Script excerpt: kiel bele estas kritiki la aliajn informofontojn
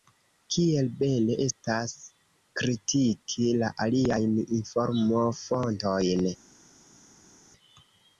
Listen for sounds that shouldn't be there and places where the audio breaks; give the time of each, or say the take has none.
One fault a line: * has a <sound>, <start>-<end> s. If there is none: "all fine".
all fine